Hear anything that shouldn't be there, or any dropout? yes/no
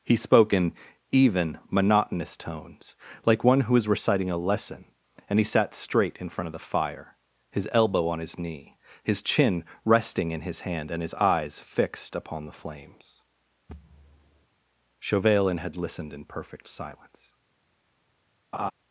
yes